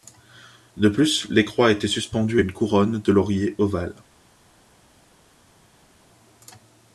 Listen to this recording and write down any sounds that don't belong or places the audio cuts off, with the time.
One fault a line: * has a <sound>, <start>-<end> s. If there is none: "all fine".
all fine